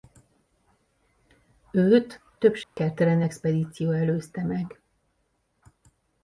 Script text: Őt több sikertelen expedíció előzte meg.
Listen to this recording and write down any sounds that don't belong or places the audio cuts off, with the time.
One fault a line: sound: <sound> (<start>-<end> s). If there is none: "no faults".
sound: dropout (2.6-2.8 s)